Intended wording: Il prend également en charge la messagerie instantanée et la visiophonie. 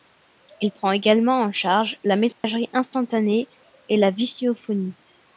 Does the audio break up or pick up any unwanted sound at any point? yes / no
yes